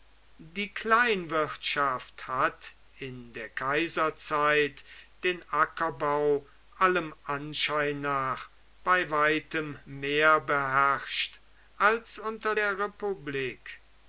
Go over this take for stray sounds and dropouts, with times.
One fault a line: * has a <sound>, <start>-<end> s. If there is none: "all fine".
all fine